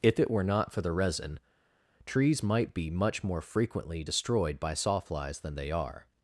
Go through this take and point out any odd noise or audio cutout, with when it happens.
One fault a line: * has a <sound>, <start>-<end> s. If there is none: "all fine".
all fine